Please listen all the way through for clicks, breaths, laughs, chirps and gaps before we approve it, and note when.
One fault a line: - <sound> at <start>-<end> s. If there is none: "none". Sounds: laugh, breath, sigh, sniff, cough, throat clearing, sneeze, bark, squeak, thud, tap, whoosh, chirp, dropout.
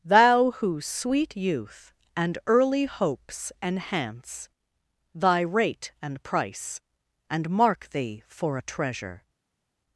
none